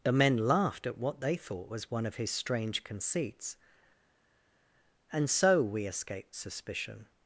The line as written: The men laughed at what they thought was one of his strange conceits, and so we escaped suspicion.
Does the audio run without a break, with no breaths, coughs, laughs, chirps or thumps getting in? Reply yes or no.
yes